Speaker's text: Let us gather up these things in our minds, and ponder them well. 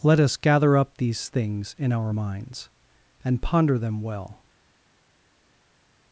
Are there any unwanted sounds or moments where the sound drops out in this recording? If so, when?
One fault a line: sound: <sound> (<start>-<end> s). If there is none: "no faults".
no faults